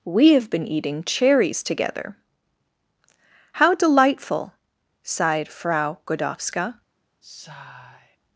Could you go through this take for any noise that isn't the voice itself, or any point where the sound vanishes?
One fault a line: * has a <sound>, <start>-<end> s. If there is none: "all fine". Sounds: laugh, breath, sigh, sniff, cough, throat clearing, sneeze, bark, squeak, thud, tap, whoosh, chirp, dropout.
* has a sigh, 7.2-8.2 s